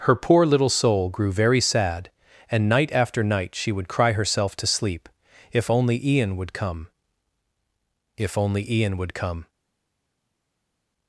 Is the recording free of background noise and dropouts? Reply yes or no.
yes